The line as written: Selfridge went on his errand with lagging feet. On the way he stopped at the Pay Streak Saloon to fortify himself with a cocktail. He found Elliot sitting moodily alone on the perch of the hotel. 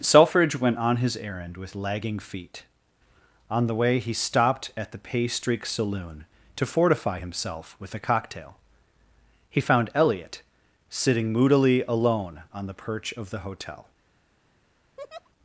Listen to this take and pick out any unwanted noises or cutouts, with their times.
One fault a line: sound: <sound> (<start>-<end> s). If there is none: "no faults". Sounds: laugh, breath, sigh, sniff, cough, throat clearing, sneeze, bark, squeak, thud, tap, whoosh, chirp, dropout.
sound: laugh (15.0-15.3 s)